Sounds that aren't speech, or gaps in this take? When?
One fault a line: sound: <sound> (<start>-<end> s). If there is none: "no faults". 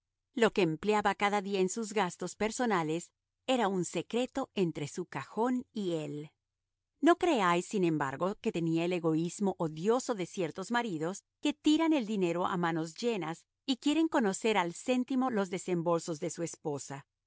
no faults